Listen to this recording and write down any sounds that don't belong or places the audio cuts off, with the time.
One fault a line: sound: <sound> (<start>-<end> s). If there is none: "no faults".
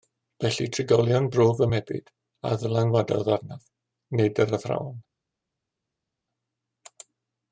no faults